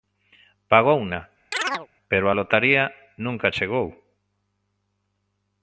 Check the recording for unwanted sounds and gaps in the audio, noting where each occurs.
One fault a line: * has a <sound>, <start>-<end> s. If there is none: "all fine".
* has a chirp, 1.5-1.9 s